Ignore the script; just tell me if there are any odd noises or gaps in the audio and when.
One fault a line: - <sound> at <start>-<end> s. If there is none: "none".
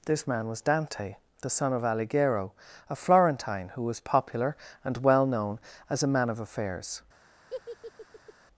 - laugh at 7.5-8.3 s